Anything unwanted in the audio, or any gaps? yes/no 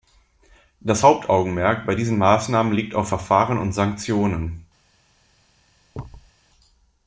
yes